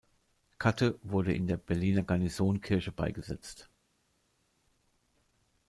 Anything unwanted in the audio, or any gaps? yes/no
no